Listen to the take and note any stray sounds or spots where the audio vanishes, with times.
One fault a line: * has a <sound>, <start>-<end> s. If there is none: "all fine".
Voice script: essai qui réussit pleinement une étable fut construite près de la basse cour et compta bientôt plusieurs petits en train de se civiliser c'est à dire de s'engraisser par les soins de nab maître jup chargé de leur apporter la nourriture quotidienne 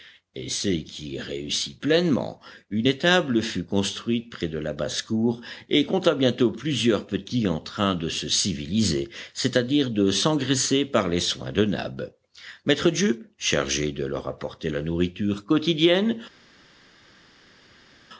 all fine